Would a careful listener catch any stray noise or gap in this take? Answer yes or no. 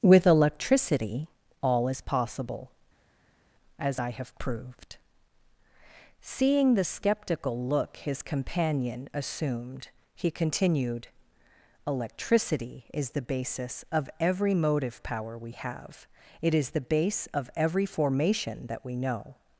no